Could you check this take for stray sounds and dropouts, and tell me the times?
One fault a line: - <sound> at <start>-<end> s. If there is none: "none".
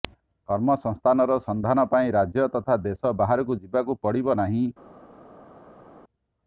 none